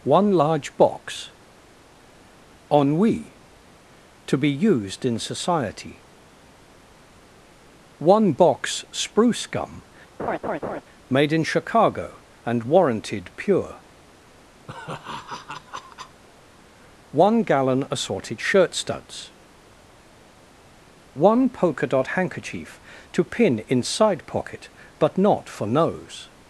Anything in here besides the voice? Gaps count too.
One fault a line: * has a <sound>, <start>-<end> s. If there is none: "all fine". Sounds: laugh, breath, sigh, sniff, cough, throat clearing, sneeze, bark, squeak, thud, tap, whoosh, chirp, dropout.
* has a laugh, 10.2-10.8 s
* has a laugh, 14.7-16.2 s